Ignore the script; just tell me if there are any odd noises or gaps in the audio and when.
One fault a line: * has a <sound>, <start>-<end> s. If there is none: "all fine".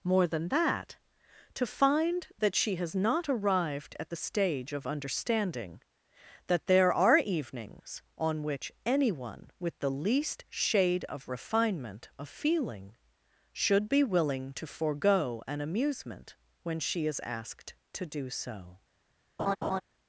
* has a laugh, 19.4-19.8 s